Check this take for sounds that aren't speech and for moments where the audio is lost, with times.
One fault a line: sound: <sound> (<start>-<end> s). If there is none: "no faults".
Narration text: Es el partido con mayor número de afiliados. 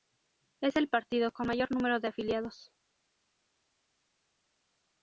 no faults